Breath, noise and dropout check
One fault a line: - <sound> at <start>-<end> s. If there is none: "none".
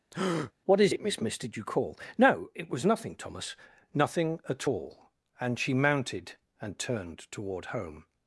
- breath at 0.1-0.5 s